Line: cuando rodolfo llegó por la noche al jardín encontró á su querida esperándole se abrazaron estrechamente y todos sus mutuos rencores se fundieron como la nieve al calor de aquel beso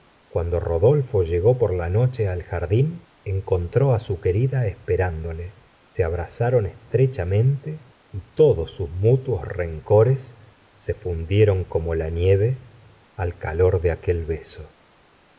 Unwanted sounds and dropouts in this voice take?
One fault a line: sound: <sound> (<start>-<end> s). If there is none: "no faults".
no faults